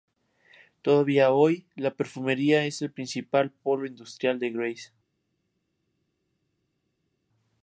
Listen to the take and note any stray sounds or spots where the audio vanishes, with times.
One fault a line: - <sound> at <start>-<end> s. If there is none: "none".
none